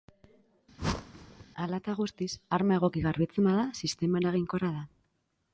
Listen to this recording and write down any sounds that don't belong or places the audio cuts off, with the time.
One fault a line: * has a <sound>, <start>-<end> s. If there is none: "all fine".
* has a whoosh, 0.8-1.5 s